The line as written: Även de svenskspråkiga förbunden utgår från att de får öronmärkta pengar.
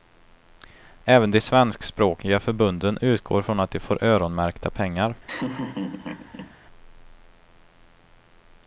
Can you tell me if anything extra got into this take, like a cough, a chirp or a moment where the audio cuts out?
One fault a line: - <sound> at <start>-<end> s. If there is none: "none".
- laugh at 5.3-6.5 s